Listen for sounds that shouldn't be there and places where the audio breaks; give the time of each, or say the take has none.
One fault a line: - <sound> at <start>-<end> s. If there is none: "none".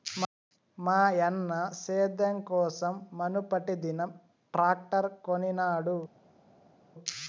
none